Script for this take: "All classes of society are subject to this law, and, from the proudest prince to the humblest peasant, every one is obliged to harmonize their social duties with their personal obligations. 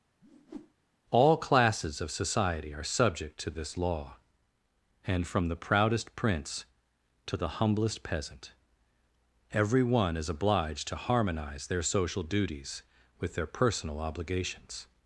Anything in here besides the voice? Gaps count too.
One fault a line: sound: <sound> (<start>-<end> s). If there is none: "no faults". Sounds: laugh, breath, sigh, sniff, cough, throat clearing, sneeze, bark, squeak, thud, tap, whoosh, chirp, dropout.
sound: whoosh (0.2-0.7 s)